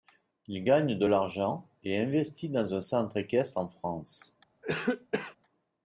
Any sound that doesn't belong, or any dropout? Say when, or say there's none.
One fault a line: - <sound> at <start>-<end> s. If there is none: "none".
- cough at 4.6-5.4 s